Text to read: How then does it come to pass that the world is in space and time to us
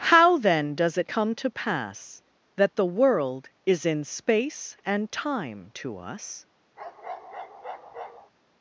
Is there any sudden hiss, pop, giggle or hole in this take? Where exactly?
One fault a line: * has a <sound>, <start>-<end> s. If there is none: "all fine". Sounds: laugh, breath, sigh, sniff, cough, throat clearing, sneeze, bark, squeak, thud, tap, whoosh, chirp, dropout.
* has a bark, 6.8-8.3 s